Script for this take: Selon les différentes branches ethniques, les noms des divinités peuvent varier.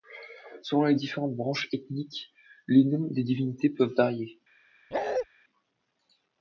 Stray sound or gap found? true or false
true